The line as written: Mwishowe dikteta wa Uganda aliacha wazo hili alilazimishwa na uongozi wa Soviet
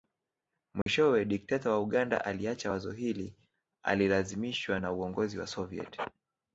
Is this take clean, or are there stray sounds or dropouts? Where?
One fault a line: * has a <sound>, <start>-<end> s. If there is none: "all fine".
* has a dropout, 0.8-0.9 s